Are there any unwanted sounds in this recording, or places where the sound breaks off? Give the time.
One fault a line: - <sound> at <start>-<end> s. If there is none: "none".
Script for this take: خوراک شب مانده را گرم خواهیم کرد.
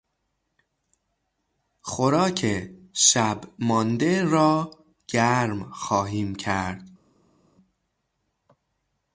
none